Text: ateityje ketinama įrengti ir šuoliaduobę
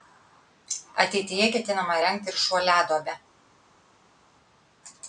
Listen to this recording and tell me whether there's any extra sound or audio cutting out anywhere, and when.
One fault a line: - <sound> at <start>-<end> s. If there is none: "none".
none